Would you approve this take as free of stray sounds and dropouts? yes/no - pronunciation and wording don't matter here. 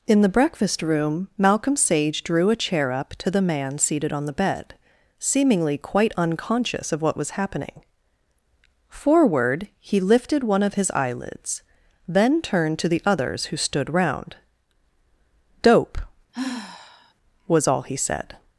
no